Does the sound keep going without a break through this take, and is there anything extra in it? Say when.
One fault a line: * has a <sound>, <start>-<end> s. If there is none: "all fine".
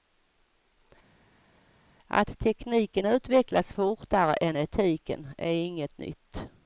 all fine